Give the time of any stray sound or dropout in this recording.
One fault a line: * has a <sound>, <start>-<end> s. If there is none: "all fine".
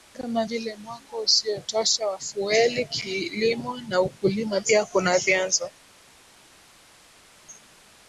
all fine